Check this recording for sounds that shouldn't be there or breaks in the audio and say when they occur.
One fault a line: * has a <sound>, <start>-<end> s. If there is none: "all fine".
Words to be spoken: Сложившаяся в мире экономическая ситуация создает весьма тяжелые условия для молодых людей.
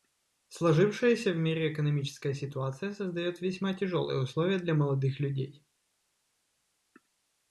all fine